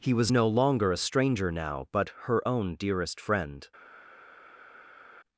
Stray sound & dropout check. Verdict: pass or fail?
pass